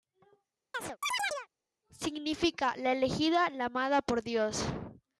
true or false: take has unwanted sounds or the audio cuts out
true